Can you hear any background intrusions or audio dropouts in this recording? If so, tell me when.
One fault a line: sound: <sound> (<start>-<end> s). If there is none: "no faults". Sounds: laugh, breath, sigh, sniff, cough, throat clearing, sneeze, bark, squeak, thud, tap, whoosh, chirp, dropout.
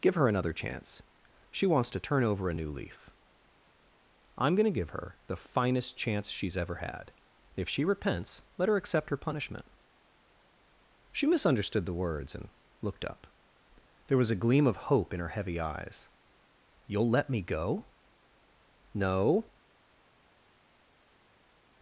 no faults